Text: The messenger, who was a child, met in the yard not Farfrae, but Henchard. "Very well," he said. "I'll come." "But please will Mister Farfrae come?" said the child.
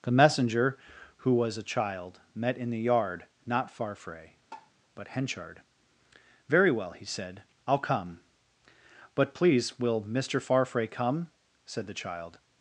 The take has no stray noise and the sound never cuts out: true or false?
false